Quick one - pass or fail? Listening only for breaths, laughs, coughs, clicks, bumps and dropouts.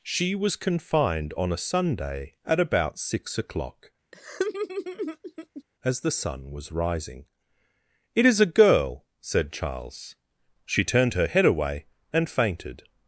fail